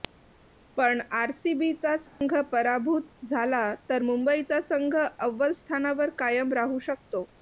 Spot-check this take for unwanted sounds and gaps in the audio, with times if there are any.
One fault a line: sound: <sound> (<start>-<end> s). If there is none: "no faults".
sound: dropout (2.1-2.2 s)